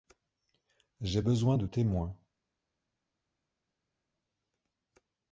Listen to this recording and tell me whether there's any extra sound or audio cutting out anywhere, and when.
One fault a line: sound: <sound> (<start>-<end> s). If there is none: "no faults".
no faults